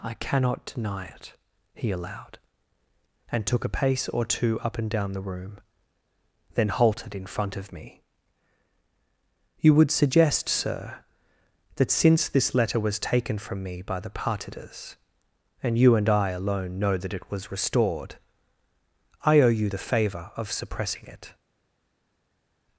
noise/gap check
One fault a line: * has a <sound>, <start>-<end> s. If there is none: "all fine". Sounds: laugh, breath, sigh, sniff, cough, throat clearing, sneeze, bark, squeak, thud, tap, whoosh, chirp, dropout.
all fine